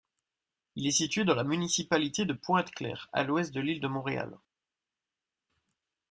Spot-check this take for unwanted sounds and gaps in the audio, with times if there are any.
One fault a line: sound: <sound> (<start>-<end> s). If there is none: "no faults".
no faults